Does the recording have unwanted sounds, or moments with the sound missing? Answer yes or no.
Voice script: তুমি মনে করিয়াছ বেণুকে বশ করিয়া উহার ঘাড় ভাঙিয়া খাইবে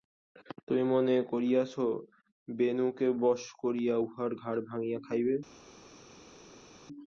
no